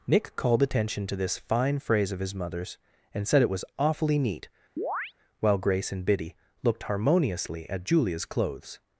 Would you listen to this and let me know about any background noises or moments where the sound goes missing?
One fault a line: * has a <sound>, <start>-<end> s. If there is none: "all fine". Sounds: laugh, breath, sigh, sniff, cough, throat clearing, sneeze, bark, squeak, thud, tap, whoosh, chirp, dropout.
* has a chirp, 4.8-5.1 s